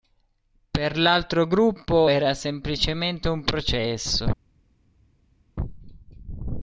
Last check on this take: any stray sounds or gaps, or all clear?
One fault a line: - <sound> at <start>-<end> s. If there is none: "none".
none